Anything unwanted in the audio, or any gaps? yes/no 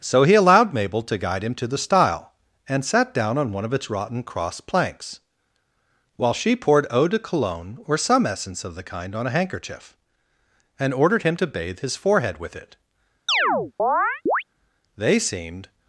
yes